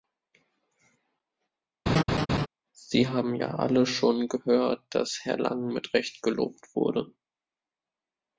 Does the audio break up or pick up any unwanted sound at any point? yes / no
yes